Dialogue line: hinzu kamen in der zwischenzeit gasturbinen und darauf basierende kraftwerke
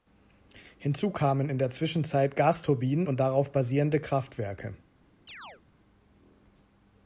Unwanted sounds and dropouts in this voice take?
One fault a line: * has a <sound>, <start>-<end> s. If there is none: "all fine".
* has a chirp, 5.3-5.6 s